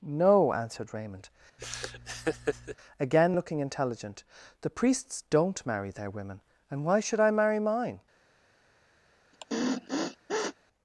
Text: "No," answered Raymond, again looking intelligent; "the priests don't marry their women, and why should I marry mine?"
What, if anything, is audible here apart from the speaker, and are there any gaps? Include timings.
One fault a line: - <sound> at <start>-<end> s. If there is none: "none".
- laugh at 1.6-2.8 s
- sniff at 9.3-10.6 s